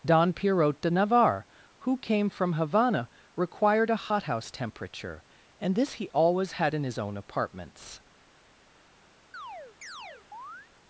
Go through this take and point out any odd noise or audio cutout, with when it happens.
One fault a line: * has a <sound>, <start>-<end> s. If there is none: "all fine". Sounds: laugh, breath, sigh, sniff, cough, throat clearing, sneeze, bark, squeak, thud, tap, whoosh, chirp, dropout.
* has a chirp, 9.3-10.7 s